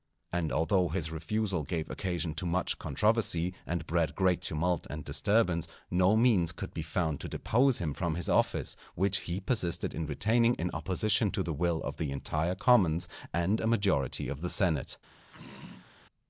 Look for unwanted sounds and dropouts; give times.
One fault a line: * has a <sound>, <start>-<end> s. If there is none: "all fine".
* has a throat clearing, 15.3-15.9 s